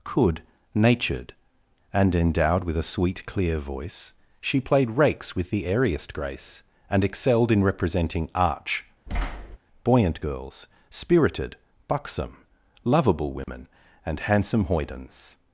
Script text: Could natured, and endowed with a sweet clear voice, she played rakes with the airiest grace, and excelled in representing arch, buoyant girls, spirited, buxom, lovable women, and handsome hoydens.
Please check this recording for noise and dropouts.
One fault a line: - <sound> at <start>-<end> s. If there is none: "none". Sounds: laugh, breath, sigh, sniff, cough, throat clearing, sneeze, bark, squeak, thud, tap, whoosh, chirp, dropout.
- thud at 9.1-9.6 s
- dropout at 13.4-13.5 s